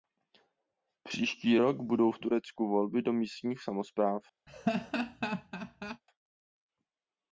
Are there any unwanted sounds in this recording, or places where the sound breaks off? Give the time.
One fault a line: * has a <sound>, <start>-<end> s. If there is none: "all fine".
* has a laugh, 4.5-6.0 s